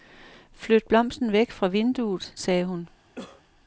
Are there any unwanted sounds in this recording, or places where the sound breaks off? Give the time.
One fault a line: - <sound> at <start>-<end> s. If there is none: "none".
- cough at 3.2-3.4 s